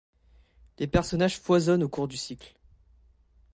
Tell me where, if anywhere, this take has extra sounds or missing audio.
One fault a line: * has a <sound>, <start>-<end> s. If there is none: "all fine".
all fine